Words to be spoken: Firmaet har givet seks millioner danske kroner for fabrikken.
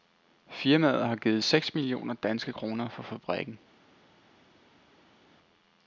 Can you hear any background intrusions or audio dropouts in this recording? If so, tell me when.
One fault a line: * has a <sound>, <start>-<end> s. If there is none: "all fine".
all fine